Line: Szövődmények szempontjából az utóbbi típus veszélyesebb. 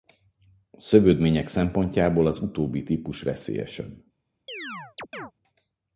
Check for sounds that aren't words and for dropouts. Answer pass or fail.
fail